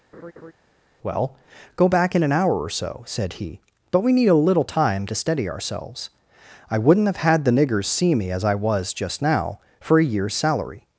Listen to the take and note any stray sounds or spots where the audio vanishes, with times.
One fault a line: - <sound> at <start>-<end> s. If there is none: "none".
- laugh at 0.1-0.5 s